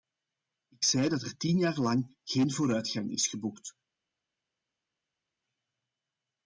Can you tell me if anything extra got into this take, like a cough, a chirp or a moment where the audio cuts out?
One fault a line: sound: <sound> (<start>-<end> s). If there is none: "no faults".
no faults